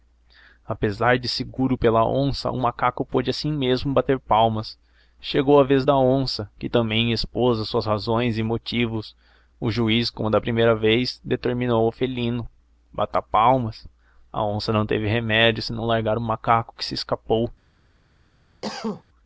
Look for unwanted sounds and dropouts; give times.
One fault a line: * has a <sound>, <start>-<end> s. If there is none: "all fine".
* has a cough, 18.6-19.0 s